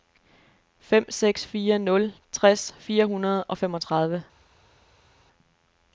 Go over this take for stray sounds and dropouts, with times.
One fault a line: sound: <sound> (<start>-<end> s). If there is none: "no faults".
no faults